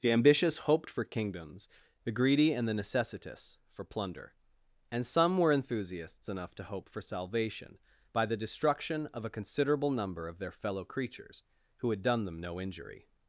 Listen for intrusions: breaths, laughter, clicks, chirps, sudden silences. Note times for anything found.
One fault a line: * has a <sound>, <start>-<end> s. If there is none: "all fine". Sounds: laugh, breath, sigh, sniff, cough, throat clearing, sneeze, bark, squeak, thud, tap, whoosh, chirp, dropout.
all fine